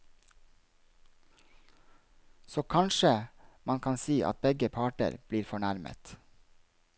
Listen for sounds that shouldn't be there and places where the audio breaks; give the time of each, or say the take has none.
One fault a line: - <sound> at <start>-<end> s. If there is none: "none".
none